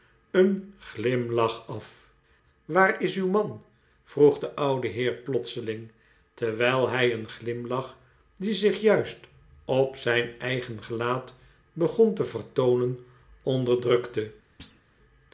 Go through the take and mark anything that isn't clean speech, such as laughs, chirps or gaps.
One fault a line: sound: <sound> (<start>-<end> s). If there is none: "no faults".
sound: thud (14.6-14.8 s)